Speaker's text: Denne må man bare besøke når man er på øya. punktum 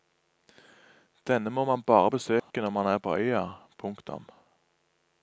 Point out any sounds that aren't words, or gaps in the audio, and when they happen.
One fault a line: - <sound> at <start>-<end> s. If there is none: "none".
- dropout at 2.4-2.5 s